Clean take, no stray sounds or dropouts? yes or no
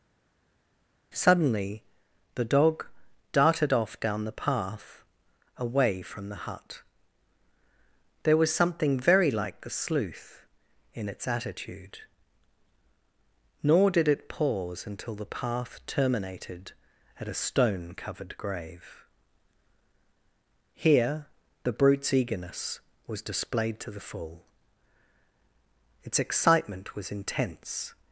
yes